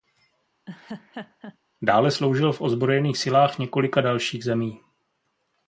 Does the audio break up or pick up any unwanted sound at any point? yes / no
yes